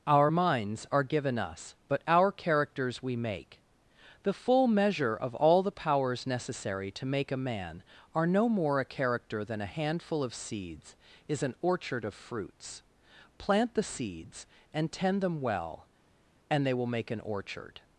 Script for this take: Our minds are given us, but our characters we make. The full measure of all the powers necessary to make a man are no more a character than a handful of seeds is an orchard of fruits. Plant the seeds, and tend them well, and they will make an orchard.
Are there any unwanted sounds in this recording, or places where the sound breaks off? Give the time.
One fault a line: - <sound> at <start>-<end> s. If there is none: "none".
none